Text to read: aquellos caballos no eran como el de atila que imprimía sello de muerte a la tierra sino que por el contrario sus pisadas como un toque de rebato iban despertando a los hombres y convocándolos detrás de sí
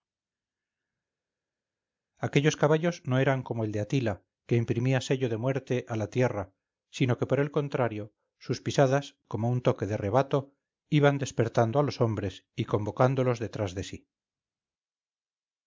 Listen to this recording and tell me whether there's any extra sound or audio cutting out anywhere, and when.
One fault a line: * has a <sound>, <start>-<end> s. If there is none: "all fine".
all fine